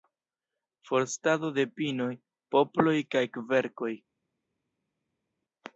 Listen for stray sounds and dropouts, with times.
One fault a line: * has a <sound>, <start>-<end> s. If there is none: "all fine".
all fine